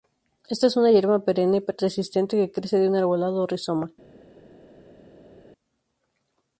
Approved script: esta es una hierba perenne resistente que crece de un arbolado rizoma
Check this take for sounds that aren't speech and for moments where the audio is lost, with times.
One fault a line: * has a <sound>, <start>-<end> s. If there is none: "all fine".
all fine